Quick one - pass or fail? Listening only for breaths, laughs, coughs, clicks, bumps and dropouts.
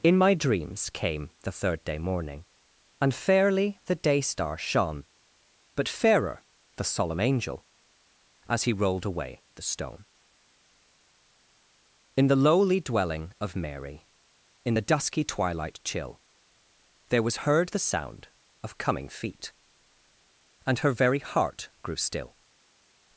pass